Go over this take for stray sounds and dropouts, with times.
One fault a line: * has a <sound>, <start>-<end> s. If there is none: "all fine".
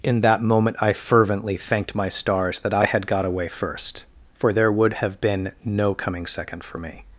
all fine